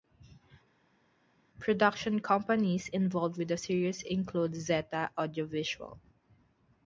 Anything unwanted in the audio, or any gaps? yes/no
no